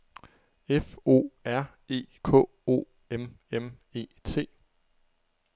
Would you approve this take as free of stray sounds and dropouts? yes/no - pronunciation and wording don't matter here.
yes